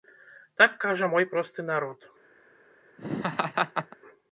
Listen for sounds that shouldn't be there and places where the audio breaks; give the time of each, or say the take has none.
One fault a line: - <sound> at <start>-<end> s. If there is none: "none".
- laugh at 3.0-4.0 s